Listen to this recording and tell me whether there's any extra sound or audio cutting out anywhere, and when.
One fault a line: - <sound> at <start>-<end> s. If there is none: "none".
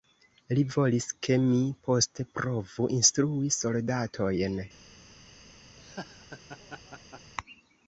- laugh at 5.8-7.3 s